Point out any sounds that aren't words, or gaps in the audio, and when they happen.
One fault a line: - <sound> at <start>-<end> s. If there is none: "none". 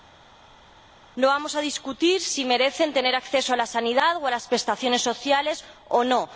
none